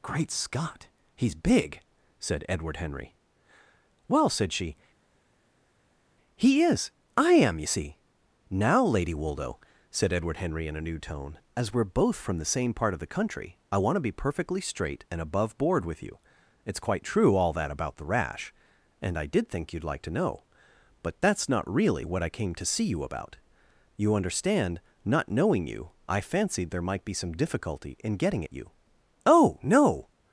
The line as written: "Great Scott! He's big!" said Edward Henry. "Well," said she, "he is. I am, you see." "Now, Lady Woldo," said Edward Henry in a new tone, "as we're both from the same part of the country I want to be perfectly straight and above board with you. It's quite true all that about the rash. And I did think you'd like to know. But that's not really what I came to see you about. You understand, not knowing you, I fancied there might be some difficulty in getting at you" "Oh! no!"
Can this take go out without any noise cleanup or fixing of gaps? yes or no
yes